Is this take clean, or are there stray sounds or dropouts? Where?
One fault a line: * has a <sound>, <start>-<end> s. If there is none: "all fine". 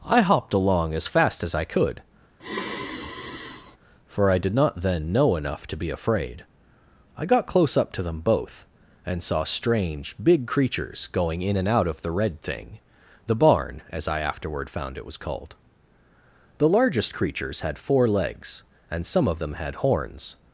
* has a sigh, 2.4-3.8 s